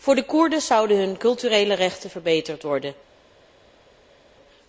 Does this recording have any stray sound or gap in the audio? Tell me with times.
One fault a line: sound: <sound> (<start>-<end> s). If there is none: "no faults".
no faults